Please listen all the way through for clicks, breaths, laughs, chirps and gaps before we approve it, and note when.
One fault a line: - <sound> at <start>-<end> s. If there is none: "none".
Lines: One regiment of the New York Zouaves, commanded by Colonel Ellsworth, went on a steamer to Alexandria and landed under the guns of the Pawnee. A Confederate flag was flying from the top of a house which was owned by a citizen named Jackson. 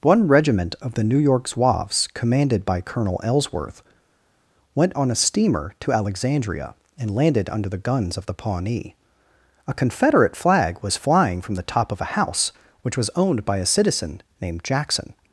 none